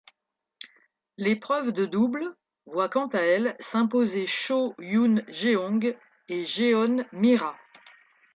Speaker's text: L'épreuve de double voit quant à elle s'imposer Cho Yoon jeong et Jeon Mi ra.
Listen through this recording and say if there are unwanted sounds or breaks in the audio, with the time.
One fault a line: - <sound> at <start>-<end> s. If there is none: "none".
none